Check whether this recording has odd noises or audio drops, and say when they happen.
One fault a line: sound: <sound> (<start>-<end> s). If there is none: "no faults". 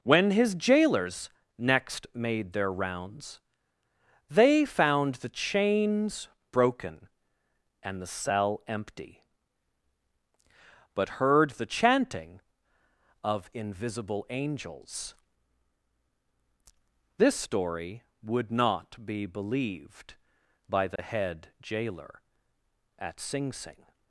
sound: dropout (21.0-21.0 s)